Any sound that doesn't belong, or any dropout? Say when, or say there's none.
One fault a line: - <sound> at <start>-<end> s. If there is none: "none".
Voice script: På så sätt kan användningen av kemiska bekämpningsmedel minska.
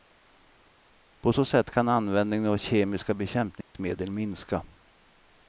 - dropout at 3.6-3.7 s